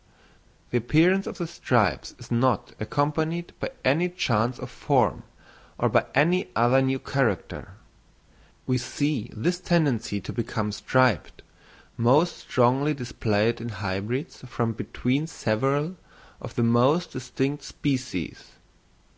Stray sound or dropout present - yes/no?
no